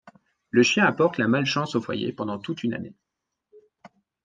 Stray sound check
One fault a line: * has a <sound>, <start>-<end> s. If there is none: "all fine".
all fine